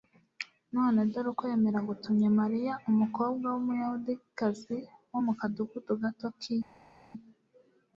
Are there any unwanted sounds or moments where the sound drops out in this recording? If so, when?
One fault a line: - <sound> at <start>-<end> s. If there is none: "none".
none